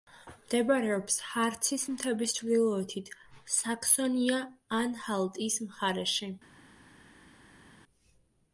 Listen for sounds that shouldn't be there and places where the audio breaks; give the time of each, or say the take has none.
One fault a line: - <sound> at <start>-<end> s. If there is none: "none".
none